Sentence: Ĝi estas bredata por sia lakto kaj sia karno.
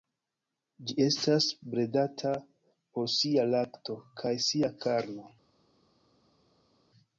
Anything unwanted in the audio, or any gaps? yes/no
no